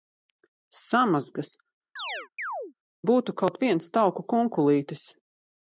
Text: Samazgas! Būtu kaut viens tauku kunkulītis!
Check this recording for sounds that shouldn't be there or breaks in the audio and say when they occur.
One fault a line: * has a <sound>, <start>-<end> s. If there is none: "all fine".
* has a chirp, 2.0-2.7 s